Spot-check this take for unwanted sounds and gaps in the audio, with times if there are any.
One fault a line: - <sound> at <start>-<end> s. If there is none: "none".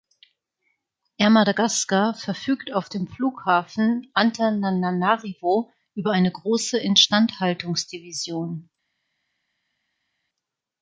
none